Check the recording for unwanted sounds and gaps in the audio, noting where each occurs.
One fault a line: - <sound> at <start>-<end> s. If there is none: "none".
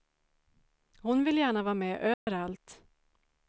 - dropout at 2.1-2.3 s